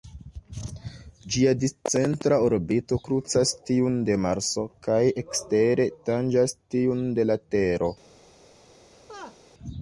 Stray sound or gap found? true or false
true